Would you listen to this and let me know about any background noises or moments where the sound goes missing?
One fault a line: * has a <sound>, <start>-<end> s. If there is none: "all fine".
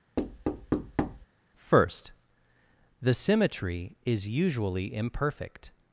* has a thud, 0.2-1.3 s